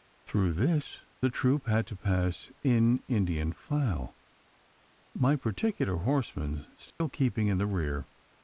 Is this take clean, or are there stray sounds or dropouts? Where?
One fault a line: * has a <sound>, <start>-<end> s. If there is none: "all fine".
* has a dropout, 6.9-7.0 s